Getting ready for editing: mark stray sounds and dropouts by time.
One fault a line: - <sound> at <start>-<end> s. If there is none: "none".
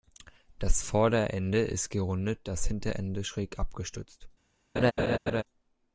- laugh at 4.8-5.4 s